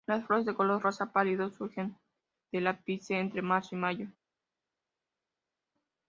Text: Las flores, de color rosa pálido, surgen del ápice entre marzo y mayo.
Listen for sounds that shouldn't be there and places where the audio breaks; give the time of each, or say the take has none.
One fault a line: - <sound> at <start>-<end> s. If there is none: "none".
none